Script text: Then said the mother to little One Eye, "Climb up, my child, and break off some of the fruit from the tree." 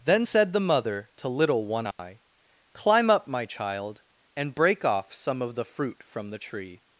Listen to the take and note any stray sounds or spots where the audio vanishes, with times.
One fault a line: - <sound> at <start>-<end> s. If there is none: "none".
- dropout at 1.9-2.0 s